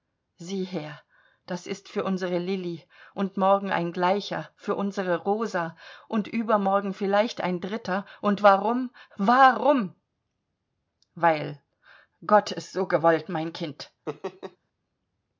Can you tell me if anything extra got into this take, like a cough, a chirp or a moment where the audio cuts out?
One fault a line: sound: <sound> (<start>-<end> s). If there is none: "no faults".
sound: laugh (14.1-14.6 s)